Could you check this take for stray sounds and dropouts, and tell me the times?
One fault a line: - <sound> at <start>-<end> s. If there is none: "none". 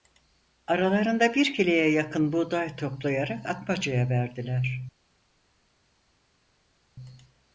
none